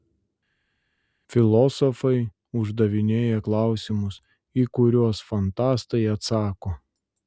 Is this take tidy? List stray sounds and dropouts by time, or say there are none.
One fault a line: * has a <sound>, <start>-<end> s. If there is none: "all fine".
all fine